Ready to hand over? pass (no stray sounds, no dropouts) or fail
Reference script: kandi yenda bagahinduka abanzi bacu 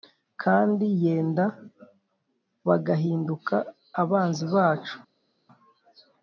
pass